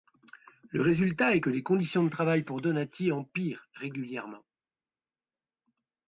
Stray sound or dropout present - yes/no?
no